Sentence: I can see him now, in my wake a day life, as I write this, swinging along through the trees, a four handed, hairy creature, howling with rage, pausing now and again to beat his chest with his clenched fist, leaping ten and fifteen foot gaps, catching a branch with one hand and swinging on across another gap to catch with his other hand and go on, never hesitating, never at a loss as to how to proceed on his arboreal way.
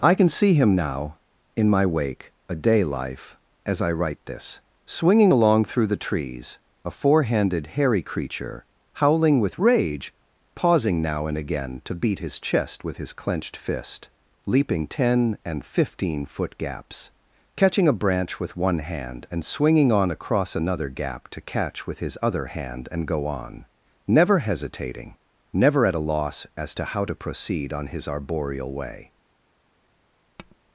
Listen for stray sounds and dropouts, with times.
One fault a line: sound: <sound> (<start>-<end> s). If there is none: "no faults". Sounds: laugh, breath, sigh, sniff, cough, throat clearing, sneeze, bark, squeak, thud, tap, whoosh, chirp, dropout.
sound: tap (30.4-30.6 s)